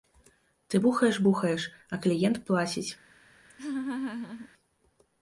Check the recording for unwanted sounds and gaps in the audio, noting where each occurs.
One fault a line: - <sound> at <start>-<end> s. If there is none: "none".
- laugh at 3.5-4.5 s